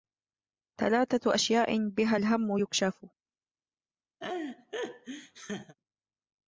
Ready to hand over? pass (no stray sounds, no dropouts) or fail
fail